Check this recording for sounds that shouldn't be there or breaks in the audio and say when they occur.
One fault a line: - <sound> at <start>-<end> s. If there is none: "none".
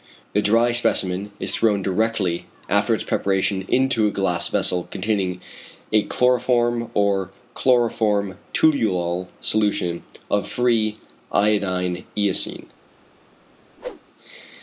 - whoosh at 13.8-14.0 s